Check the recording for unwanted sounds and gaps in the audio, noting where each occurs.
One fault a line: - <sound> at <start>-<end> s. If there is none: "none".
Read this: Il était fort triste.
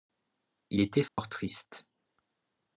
- dropout at 1.1-1.2 s